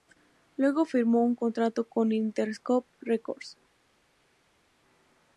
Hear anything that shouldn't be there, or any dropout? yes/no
no